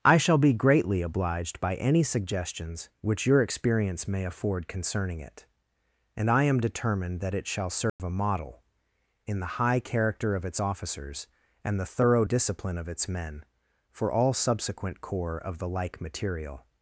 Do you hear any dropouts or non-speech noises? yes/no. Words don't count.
yes